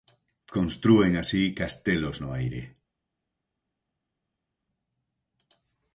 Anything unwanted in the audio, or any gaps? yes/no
no